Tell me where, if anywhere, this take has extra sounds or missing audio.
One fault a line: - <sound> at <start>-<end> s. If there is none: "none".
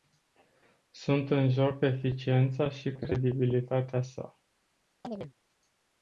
- chirp at 5.0-5.3 s